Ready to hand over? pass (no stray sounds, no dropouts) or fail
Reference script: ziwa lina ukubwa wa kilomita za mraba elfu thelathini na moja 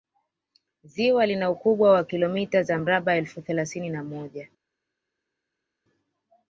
pass